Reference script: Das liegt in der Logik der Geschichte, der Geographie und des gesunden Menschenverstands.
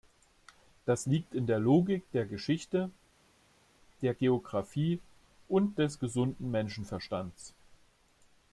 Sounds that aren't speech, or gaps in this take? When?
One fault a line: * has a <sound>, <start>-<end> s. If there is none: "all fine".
all fine